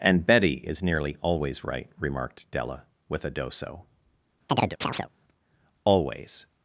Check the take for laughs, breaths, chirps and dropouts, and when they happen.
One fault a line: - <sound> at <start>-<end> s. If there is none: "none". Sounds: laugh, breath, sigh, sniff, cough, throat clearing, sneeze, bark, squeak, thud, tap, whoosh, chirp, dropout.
- chirp at 4.5-5.1 s